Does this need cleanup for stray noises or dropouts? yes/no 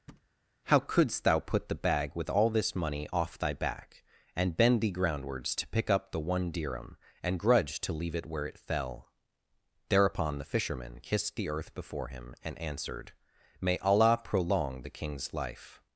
yes